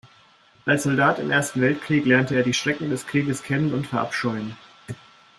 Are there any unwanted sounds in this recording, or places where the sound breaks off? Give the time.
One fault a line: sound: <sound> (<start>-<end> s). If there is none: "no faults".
no faults